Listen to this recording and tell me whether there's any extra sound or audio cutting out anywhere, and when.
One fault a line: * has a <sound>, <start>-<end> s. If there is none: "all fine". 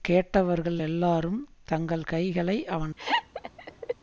* has a laugh, 3.0-3.9 s